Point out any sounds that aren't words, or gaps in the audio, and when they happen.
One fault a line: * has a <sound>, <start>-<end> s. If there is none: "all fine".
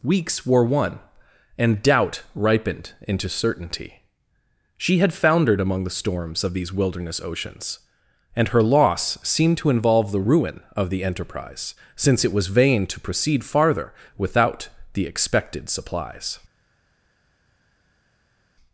all fine